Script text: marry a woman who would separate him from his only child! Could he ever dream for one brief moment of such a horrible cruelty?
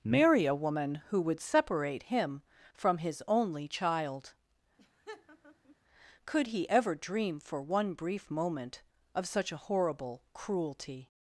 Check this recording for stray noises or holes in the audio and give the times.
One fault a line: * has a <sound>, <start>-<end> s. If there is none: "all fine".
* has a laugh, 4.8-5.8 s